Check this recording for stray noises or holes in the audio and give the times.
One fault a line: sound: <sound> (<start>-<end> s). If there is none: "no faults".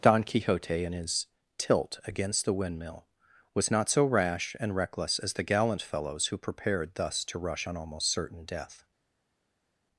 no faults